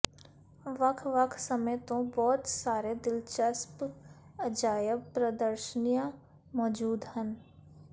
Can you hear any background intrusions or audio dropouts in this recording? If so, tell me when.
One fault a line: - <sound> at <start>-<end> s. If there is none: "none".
none